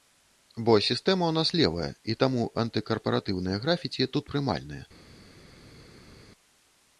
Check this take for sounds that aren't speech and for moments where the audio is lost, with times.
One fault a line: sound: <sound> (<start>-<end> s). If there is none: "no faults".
no faults